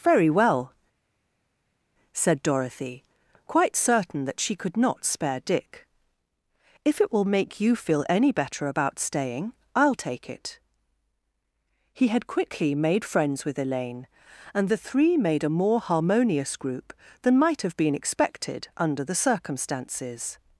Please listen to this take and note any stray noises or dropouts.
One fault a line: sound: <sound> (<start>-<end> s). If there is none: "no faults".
no faults